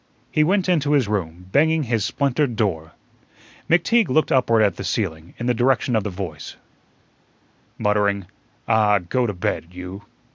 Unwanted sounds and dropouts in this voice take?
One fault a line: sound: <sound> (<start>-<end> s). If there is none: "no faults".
no faults